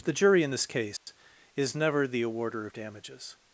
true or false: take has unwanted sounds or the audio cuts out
true